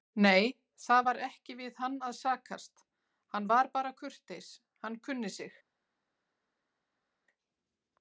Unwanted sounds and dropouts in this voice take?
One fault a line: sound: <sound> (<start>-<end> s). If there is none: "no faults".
no faults